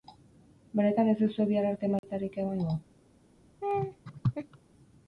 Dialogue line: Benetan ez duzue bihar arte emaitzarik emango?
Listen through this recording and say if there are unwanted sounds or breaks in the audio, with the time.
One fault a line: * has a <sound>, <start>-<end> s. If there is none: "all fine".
* has a dropout, 2.0-2.0 s
* has a laugh, 3.6-4.6 s